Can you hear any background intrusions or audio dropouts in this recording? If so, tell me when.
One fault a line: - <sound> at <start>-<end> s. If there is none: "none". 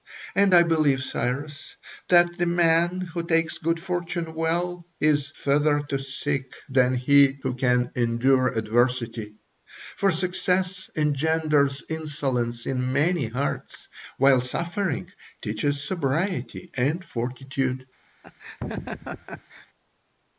- laugh at 18.2-19.7 s